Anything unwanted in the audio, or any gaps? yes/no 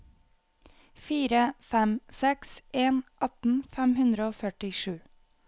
no